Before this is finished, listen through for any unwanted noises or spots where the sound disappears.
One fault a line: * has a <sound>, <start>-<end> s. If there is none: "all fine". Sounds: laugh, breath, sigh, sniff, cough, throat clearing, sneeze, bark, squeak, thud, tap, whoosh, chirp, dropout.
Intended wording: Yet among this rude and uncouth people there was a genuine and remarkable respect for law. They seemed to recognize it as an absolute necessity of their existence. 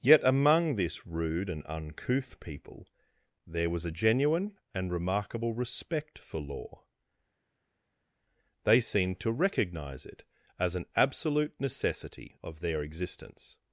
all fine